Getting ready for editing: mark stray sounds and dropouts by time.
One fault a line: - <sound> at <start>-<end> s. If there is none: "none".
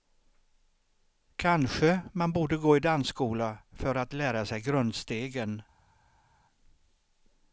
none